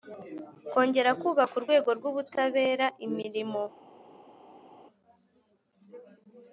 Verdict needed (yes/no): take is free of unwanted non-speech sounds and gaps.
yes